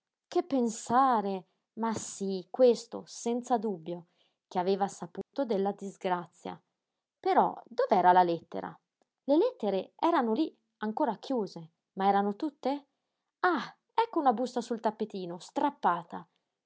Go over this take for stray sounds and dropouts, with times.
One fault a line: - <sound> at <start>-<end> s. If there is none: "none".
- dropout at 5.2-5.3 s